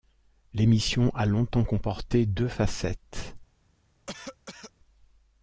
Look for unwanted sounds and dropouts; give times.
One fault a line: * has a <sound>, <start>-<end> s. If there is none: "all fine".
* has a cough, 4.1-4.7 s